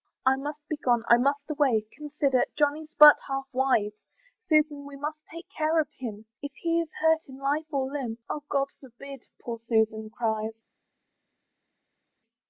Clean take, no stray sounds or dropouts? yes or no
yes